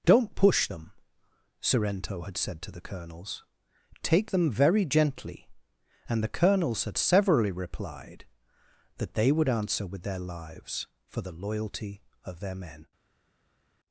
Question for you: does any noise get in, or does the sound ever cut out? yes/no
no